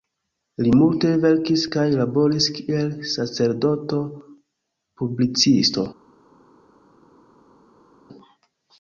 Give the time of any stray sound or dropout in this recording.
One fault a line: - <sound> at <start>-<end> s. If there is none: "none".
none